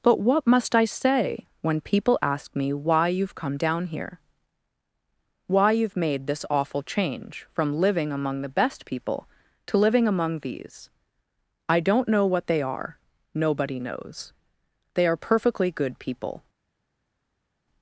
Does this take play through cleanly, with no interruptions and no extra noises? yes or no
yes